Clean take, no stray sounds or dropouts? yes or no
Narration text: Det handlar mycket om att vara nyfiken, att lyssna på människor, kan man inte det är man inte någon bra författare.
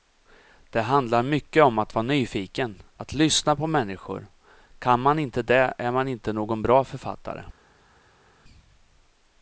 yes